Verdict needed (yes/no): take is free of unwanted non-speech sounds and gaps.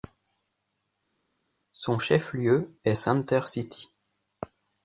yes